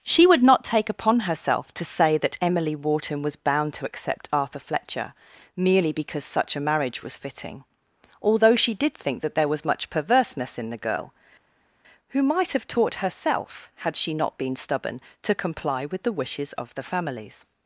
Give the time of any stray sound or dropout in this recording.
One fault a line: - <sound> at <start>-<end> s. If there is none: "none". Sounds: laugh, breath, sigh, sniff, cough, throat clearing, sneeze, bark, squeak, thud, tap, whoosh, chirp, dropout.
none